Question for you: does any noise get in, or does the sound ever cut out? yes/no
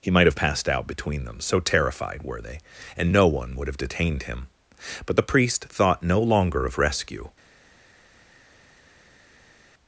no